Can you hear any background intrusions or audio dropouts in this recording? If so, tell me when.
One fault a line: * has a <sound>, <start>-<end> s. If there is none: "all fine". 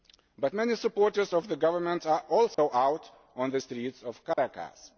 * has a dropout, 2.5-2.6 s
* has a dropout, 4.3-4.4 s